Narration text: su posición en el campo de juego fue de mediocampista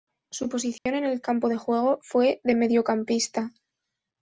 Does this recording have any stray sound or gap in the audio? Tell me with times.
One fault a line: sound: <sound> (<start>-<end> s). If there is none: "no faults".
sound: dropout (0.8-0.9 s)